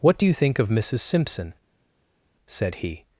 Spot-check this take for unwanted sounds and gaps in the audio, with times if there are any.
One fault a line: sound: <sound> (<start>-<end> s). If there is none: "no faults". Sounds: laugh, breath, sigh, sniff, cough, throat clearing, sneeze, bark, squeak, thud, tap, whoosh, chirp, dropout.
no faults